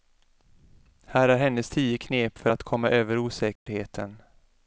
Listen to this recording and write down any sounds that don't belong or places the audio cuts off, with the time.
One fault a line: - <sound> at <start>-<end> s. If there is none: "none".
- dropout at 3.6-3.7 s